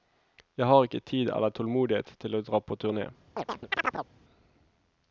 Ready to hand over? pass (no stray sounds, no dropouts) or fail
fail